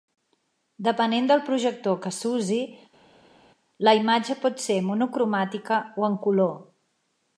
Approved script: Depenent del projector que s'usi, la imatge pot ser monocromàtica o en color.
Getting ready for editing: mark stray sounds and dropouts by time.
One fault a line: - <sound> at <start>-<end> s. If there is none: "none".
none